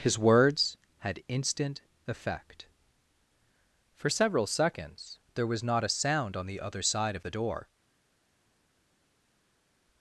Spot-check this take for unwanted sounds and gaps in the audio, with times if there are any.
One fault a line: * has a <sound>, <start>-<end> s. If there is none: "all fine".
all fine